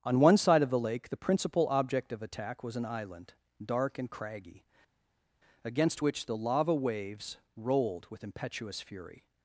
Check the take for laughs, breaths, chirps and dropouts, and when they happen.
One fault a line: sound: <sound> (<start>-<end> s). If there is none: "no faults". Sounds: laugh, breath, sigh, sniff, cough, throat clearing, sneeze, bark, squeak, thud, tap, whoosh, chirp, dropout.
no faults